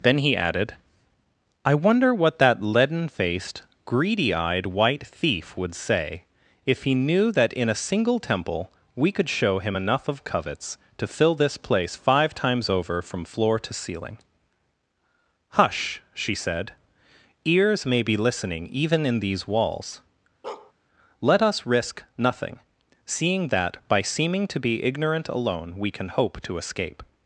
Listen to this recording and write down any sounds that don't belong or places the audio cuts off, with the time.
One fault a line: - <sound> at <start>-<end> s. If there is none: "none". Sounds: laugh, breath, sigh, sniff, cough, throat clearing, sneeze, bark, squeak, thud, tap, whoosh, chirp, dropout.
- bark at 20.4-20.7 s